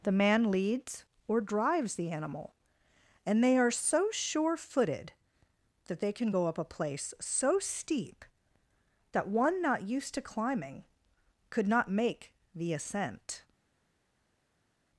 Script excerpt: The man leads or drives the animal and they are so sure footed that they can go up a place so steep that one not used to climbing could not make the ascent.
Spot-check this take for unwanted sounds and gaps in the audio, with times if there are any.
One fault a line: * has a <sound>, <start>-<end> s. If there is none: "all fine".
all fine